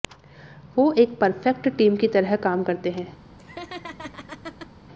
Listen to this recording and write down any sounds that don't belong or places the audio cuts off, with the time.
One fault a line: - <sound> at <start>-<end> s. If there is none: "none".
- laugh at 3.4-4.7 s